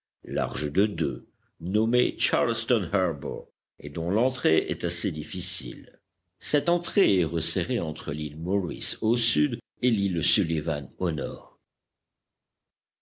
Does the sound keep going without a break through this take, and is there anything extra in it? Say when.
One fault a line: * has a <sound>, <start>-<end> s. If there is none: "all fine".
all fine